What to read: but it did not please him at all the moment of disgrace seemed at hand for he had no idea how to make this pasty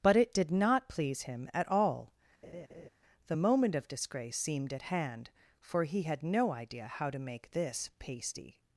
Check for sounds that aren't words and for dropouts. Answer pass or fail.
fail